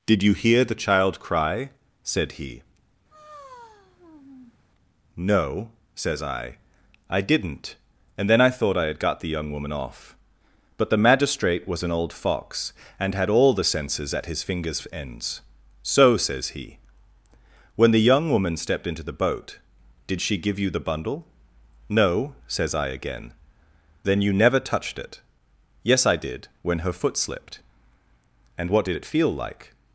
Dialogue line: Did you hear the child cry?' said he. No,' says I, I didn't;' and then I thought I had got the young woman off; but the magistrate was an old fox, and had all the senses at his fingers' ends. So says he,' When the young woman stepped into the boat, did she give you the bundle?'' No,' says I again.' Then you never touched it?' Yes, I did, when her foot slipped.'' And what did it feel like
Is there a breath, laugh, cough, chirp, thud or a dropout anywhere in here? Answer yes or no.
yes